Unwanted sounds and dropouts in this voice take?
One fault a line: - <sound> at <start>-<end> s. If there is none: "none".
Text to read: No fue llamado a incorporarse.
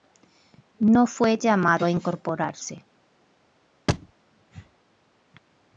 - thud at 3.9-4.1 s